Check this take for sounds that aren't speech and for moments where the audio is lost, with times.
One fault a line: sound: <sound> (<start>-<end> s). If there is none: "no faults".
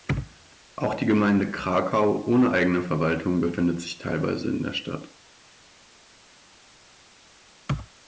no faults